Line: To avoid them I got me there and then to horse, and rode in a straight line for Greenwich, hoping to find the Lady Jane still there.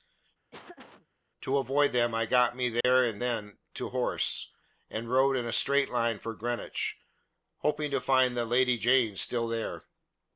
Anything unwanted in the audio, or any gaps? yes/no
yes